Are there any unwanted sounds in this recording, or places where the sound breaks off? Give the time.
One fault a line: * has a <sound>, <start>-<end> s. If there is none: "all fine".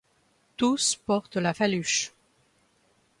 all fine